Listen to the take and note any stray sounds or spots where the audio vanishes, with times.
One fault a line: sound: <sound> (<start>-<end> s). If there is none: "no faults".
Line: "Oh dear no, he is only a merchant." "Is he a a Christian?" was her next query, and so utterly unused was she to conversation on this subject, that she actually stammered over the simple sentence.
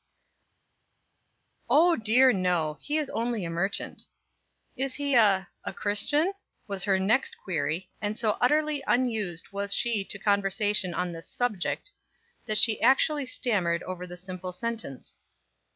no faults